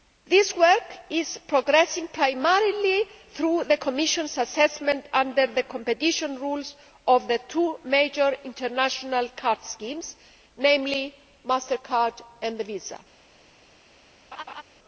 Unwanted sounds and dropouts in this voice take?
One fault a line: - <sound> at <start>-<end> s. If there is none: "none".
- laugh at 14.3-14.6 s